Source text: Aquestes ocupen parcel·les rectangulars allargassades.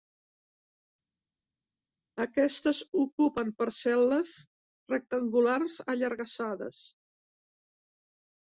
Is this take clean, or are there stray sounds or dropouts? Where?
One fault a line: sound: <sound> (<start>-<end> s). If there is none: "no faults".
no faults